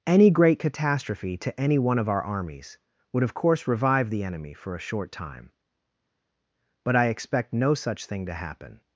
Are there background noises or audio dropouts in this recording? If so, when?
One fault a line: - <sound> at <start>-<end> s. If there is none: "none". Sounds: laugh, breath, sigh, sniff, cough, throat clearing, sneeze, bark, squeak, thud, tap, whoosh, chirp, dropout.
none